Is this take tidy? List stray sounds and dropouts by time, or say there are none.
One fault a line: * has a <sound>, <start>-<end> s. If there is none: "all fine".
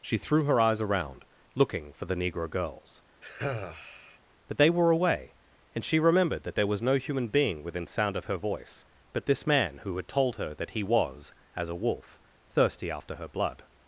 * has a sigh, 3.2-4.2 s